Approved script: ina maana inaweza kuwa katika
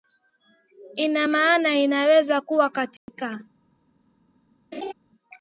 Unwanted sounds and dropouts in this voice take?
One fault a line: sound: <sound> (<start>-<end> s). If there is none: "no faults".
sound: dropout (3.0-3.1 s)
sound: laugh (4.7-4.9 s)